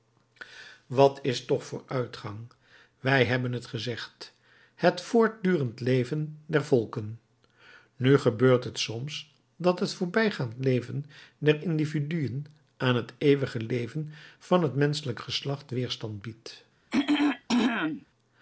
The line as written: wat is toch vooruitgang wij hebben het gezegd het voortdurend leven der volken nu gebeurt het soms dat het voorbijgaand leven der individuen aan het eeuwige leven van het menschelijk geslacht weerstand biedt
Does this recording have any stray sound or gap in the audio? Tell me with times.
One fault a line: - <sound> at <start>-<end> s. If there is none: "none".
- throat clearing at 16.9-18.1 s